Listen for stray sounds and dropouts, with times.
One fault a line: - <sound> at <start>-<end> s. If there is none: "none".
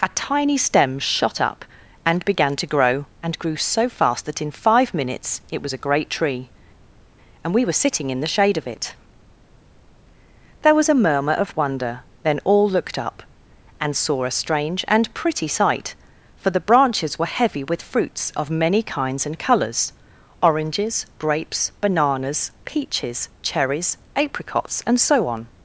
none